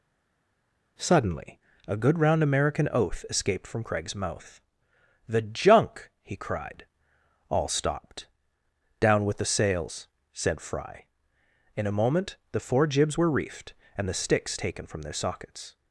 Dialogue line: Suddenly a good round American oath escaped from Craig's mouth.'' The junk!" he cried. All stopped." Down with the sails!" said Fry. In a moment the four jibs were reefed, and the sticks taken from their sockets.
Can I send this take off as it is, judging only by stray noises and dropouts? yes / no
yes